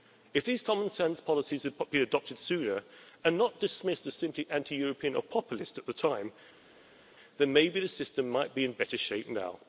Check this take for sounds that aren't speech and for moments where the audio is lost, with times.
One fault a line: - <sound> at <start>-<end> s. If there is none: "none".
none